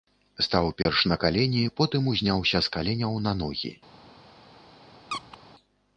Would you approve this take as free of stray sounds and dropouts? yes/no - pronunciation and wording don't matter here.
no